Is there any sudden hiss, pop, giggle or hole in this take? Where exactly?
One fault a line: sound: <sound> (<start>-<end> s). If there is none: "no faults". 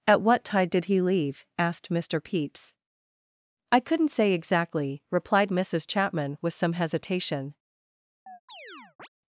sound: chirp (8.3-9.1 s)